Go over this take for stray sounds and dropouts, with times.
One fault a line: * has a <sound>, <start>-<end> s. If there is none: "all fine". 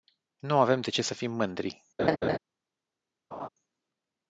* has a laugh, 2.0-2.4 s
* has a laugh, 3.3-3.5 s